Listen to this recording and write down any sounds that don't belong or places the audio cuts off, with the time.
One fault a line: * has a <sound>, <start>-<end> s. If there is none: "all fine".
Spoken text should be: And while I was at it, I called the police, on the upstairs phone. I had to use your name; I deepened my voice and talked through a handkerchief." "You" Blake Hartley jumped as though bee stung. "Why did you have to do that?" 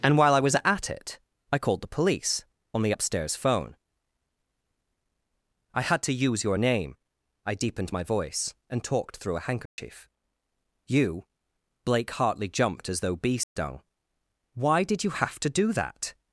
* has a dropout, 9.7-9.8 s
* has a dropout, 13.4-13.6 s